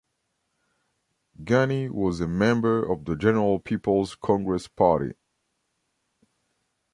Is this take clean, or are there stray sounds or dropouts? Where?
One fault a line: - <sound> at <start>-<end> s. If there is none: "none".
none